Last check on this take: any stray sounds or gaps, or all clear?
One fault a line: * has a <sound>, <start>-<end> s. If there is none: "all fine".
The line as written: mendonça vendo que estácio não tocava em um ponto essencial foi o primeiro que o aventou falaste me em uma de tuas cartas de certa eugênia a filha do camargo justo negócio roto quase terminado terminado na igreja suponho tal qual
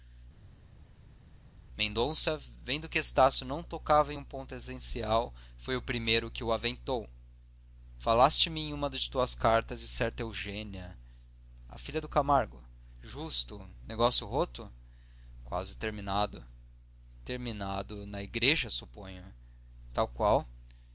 all fine